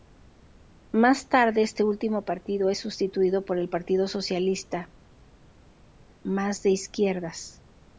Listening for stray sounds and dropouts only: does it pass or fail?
pass